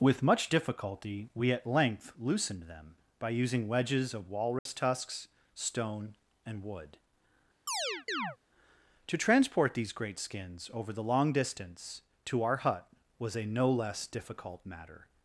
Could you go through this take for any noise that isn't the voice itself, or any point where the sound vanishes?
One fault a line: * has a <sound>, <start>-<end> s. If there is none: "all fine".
* has a dropout, 4.6-4.7 s
* has a chirp, 7.7-8.4 s